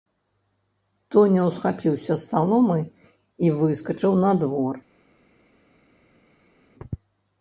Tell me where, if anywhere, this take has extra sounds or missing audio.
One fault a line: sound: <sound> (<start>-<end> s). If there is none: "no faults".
no faults